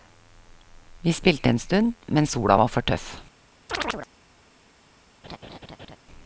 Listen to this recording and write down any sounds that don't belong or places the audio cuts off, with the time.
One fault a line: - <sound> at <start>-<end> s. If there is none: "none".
- chirp at 3.7-4.1 s
- laugh at 5.2-6.0 s